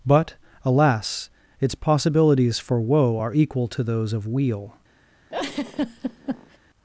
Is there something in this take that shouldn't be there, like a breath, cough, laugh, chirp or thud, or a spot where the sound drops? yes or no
yes